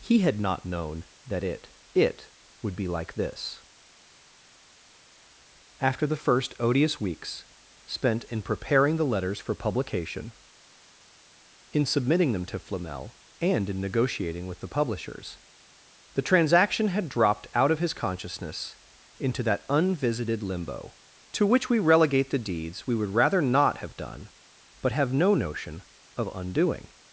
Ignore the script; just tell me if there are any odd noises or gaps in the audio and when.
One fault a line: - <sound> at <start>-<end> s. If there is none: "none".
none